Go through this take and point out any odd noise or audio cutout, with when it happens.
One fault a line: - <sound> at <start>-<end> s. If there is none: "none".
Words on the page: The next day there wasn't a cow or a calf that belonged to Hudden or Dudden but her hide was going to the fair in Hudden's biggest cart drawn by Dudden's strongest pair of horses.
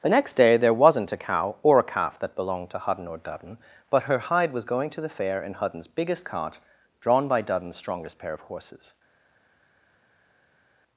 none